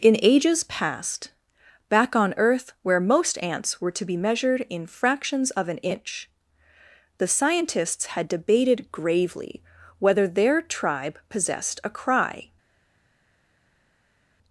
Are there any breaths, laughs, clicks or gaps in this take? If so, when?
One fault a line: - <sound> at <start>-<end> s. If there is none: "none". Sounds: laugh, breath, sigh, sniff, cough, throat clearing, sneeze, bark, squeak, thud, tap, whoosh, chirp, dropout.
none